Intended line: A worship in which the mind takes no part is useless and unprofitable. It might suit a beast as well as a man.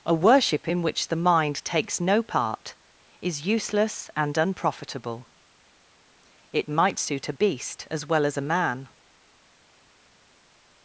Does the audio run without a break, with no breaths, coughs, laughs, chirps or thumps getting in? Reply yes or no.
yes